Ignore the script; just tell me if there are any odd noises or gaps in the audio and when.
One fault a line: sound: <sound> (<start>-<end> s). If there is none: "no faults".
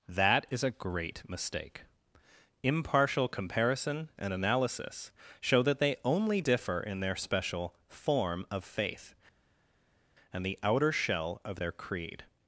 no faults